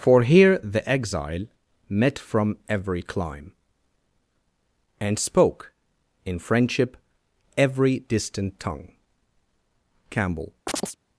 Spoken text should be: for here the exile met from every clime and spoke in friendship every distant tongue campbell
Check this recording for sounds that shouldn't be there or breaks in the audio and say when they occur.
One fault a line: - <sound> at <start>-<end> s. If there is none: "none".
- chirp at 10.7-11.0 s